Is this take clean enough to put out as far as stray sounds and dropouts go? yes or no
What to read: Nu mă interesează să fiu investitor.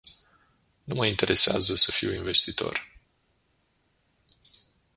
yes